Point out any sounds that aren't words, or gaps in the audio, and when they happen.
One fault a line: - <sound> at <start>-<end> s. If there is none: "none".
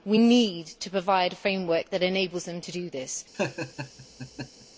- laugh at 3.3-4.7 s